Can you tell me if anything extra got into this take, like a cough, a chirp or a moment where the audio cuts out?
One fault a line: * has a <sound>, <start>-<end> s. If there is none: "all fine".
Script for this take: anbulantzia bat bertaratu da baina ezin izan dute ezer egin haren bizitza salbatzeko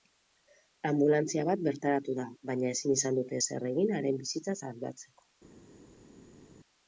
all fine